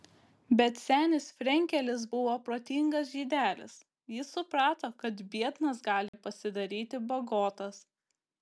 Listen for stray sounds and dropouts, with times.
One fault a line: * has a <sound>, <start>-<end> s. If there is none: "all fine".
* has a dropout, 6.1-6.1 s